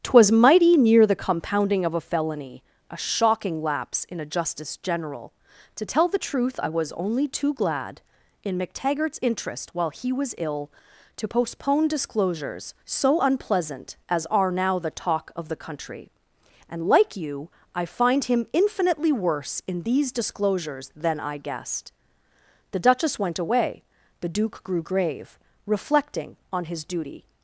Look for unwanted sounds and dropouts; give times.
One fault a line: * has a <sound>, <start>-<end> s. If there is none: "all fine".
all fine